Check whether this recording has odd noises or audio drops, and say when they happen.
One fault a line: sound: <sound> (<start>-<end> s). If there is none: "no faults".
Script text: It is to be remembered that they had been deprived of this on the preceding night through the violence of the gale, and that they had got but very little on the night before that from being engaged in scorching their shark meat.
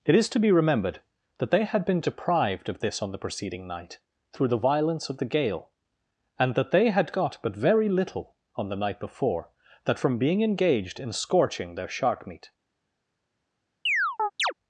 sound: chirp (13.9-14.5 s)